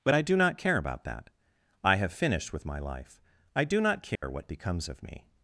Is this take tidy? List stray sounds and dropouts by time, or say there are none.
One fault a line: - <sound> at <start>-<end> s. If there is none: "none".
- dropout at 4.2-4.2 s